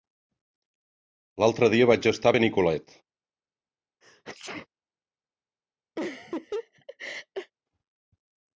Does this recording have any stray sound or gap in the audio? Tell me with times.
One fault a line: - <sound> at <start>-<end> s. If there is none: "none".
- sneeze at 4.0-4.7 s
- laugh at 6.0-7.5 s